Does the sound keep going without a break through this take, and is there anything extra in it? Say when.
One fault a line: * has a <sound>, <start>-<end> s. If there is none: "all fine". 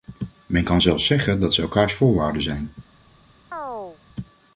* has a chirp, 3.5-4.0 s